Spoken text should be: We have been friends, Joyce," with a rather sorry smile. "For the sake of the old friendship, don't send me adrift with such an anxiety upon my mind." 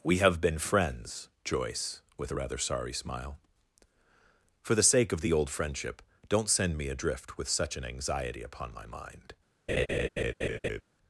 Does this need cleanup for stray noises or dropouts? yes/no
yes